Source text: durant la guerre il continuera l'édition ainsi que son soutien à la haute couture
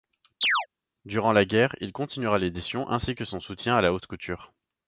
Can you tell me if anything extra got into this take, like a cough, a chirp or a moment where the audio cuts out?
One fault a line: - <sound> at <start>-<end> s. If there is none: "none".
- chirp at 0.4-0.7 s